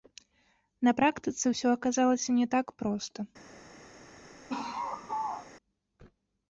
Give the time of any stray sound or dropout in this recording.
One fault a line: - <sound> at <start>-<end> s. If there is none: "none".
- laugh at 4.5-5.5 s